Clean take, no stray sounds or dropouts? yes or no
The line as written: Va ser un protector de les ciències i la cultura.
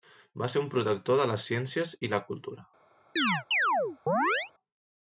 no